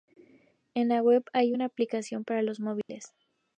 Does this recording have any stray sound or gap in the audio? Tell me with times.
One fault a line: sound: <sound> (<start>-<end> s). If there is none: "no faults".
sound: dropout (2.8-2.9 s)